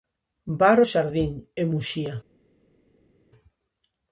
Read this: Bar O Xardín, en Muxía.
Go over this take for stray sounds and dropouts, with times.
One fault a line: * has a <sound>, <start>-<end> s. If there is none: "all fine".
all fine